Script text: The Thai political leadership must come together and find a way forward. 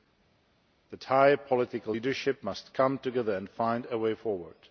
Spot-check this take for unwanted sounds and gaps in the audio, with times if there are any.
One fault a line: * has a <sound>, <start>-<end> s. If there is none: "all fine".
all fine